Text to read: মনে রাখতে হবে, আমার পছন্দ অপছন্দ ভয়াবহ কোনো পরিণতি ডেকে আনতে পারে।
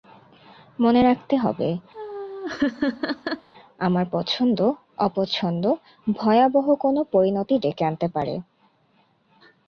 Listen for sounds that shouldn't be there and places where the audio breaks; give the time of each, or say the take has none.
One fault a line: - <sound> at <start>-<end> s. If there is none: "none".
- laugh at 1.9-3.5 s